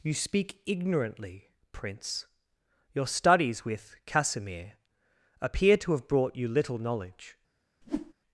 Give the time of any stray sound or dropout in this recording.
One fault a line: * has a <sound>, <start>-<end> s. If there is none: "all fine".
* has a whoosh, 7.8-8.1 s